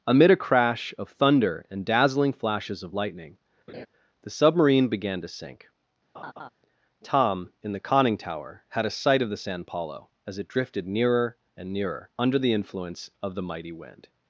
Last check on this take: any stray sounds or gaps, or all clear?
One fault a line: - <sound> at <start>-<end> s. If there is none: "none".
- laugh at 3.7-3.9 s
- laugh at 6.1-6.5 s